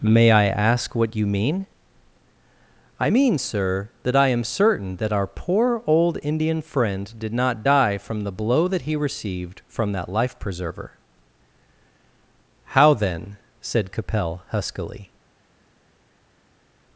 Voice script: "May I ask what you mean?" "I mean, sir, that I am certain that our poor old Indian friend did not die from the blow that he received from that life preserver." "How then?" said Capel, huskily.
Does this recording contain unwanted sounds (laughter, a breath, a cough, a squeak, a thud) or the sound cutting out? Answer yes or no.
no